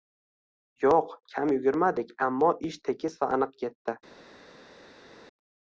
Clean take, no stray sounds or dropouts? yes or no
yes